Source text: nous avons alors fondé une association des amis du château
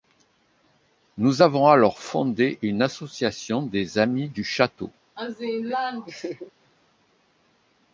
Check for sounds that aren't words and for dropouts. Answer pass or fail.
fail